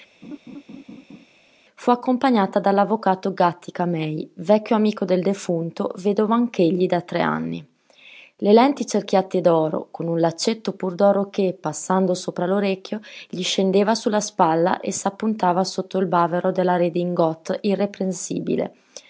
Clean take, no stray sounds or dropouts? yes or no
no